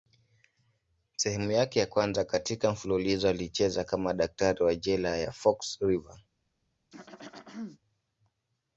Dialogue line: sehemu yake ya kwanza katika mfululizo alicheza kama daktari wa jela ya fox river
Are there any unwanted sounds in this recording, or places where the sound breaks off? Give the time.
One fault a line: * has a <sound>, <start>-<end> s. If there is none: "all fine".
* has a throat clearing, 6.9-7.8 s